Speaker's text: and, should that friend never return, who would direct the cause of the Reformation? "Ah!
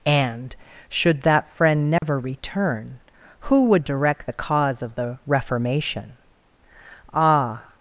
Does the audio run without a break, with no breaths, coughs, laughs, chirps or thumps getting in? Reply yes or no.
no